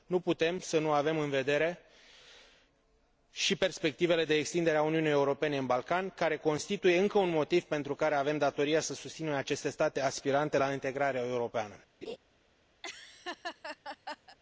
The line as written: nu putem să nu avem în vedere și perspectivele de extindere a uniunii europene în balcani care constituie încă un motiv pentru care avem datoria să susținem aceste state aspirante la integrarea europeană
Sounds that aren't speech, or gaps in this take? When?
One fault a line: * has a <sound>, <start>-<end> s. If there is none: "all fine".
* has a laugh, 12.0-12.2 s
* has a laugh, 12.8-14.4 s